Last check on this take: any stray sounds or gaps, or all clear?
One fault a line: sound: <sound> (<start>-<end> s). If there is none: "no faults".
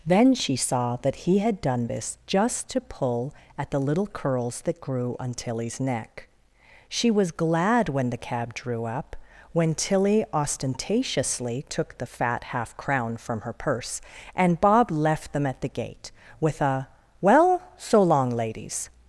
no faults